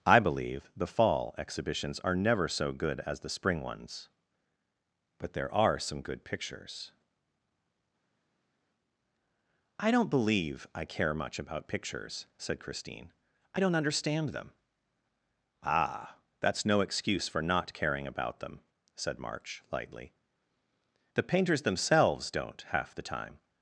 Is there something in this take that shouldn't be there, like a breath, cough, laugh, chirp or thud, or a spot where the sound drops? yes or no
no